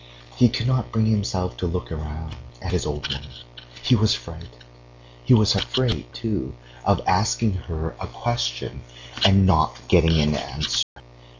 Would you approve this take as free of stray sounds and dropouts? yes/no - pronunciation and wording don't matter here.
no